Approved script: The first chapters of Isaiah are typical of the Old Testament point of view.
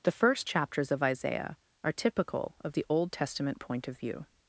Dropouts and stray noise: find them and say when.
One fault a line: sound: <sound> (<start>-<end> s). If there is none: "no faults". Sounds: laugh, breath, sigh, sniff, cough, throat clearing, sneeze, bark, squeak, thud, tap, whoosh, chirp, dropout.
no faults